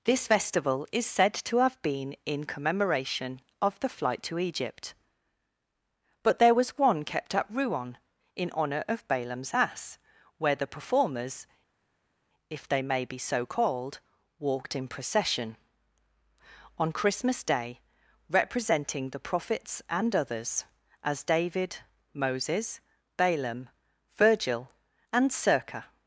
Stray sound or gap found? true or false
false